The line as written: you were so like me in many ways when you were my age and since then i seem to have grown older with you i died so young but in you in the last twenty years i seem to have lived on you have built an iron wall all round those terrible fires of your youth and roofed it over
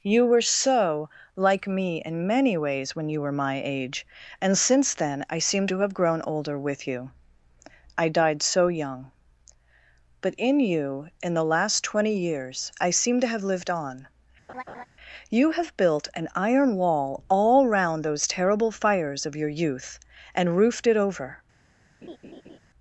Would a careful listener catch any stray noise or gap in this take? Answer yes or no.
yes